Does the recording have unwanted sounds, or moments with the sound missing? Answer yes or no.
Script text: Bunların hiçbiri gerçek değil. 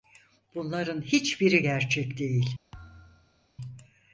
yes